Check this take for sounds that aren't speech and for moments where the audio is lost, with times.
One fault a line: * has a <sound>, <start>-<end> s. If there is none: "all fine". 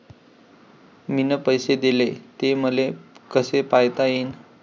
all fine